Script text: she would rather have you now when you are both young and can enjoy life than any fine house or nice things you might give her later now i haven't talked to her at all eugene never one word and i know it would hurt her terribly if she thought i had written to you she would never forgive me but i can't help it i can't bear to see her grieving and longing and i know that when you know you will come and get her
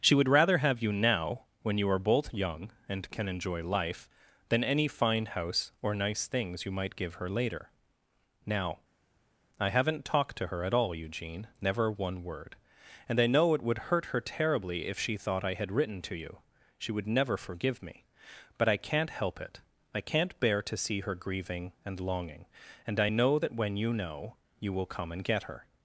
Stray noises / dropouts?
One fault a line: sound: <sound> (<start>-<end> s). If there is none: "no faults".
no faults